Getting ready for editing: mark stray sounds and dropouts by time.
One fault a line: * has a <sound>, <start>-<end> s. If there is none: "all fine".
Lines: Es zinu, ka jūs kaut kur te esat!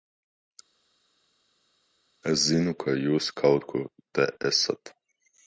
all fine